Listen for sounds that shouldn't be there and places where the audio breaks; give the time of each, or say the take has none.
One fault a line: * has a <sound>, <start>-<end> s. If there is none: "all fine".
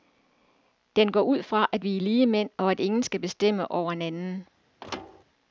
* has a thud, 4.8-5.2 s